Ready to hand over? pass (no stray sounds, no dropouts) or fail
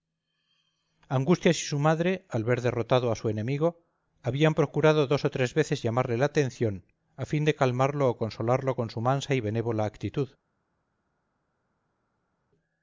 pass